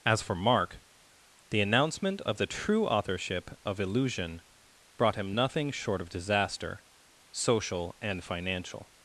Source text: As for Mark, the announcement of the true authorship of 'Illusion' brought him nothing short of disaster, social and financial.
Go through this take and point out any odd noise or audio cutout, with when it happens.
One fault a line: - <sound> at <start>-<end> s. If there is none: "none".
none